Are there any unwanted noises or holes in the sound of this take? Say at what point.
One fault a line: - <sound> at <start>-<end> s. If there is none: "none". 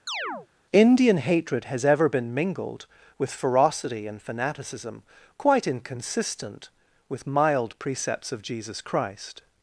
- chirp at 0.1-0.5 s